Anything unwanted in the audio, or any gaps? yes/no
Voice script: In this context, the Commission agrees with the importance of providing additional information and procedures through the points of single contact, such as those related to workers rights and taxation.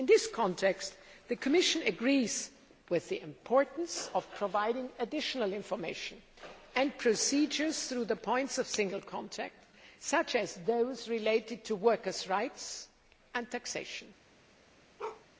yes